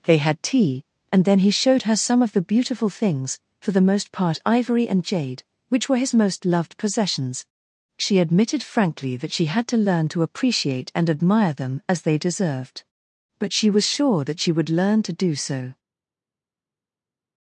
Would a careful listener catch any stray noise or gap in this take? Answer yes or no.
no